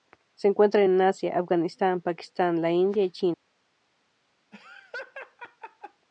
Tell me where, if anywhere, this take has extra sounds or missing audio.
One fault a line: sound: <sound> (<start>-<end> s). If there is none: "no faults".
sound: laugh (4.5-6.1 s)